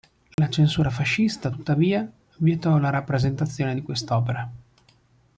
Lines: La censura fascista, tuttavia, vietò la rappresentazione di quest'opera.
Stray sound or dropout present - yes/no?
yes